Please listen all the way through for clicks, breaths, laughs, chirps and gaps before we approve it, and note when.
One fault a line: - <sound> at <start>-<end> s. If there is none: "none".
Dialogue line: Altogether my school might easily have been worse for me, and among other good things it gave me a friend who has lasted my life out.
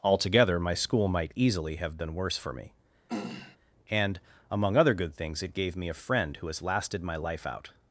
- throat clearing at 3.1-3.6 s